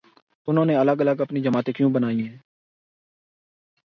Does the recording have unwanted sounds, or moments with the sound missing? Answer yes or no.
no